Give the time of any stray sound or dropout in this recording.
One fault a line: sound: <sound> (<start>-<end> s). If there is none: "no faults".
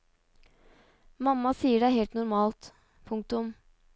no faults